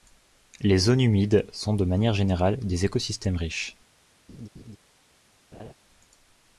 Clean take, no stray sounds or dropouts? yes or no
no